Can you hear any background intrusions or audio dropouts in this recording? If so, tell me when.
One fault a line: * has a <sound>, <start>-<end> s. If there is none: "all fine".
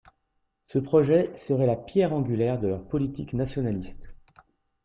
all fine